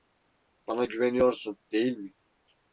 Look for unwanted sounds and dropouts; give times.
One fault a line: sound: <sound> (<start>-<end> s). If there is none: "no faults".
no faults